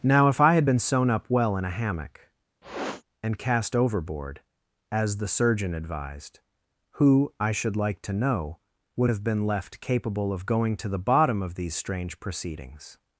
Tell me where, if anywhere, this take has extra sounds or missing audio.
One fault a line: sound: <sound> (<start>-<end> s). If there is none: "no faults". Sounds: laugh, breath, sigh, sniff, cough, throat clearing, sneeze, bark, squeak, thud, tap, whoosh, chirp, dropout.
sound: sniff (2.6-3.0 s)